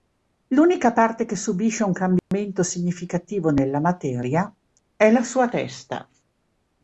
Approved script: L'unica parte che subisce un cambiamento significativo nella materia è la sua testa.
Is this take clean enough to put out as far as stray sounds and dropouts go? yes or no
no